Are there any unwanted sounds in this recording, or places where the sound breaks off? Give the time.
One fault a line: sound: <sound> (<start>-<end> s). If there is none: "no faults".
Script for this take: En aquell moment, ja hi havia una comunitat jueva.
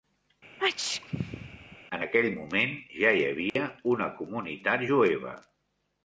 sound: sneeze (0.6-1.8 s)
sound: dropout (3.5-3.6 s)